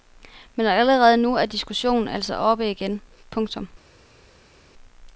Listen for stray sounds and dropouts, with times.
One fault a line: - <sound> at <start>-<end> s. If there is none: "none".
none